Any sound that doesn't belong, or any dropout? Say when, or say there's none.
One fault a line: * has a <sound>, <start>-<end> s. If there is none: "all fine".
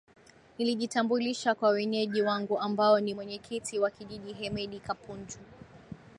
all fine